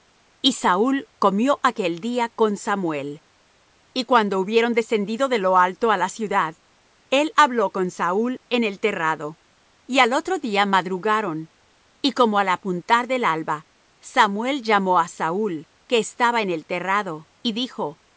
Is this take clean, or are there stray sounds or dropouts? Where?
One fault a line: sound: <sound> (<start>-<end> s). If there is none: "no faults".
no faults